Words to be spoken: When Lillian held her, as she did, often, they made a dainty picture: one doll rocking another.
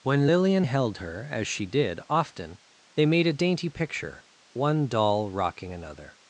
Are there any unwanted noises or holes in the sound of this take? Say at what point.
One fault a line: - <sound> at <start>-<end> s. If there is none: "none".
none